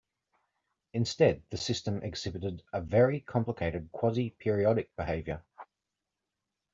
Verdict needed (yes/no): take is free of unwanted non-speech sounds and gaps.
yes